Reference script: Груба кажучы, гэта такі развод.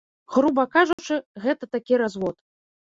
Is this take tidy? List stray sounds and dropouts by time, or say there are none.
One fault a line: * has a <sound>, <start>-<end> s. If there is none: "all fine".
* has a dropout, 0.9-1.0 s